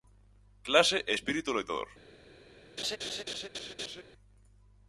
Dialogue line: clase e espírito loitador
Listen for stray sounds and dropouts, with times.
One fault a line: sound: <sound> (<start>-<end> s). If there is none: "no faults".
sound: laugh (2.8-4.0 s)